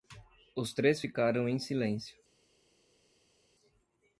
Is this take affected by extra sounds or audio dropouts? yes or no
no